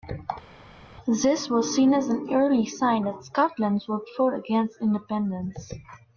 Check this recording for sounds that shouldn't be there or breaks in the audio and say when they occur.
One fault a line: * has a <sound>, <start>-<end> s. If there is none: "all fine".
all fine